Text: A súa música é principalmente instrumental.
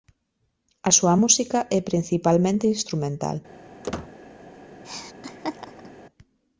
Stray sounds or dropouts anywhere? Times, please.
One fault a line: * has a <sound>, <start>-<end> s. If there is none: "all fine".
* has a squeak, 3.8-4.1 s
* has a laugh, 4.8-5.9 s